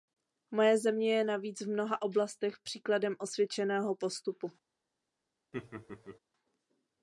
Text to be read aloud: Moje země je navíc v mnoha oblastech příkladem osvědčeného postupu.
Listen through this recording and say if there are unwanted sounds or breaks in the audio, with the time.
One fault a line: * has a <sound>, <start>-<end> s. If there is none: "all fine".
* has a laugh, 5.5-6.2 s